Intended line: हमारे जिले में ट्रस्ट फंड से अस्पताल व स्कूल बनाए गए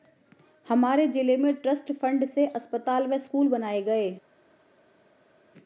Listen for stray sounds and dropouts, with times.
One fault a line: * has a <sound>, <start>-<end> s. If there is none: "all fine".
all fine